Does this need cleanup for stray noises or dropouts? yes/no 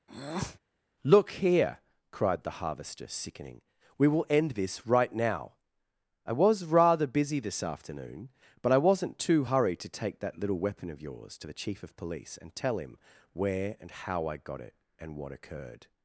yes